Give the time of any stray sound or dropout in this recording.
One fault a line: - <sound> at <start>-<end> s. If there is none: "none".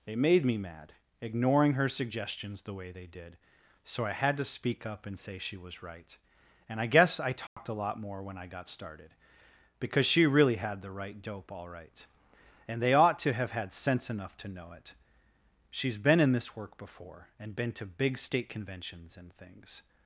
- dropout at 7.5-7.6 s